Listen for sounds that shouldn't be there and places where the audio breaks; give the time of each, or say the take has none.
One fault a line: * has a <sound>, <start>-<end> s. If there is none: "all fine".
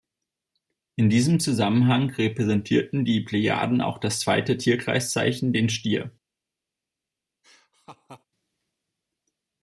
* has a laugh, 7.4-8.2 s